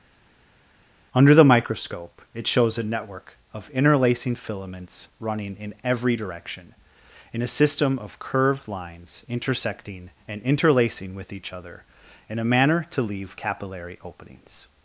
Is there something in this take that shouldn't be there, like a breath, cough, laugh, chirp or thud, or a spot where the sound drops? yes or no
no